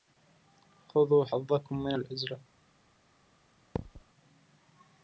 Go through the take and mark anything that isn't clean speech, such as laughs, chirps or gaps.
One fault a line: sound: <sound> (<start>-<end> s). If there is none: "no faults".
sound: thud (3.8-4.0 s)